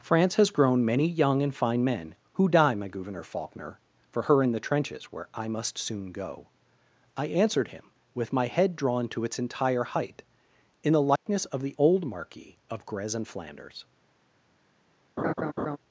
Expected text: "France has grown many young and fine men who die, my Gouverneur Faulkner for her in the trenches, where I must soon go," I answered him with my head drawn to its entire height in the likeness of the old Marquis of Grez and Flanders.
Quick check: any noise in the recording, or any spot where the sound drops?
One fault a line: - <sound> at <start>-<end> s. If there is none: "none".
- dropout at 11.2-11.3 s
- laugh at 15.2-15.8 s